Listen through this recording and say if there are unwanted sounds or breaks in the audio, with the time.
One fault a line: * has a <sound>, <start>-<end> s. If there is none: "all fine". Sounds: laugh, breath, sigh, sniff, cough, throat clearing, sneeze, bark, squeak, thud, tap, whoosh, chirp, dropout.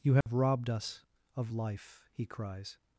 * has a dropout, 0.2-0.3 s